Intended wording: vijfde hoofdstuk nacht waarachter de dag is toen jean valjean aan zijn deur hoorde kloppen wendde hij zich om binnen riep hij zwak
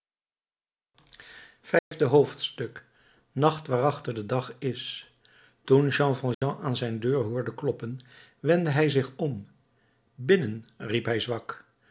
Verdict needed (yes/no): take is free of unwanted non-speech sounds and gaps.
no